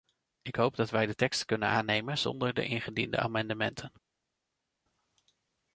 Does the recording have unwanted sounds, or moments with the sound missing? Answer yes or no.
no